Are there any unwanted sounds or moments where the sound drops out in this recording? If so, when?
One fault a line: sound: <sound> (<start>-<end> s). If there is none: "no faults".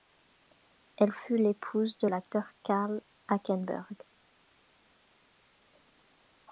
no faults